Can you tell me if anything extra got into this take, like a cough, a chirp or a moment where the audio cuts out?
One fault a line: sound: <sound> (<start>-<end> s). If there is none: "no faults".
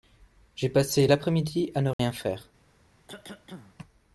sound: dropout (1.9-2.0 s)
sound: cough (3.1-3.8 s)